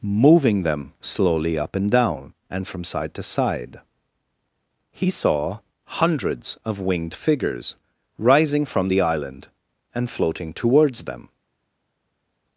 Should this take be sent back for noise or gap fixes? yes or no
no